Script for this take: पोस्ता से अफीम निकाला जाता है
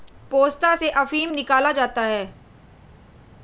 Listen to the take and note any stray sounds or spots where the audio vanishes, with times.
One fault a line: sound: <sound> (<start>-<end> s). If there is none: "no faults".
no faults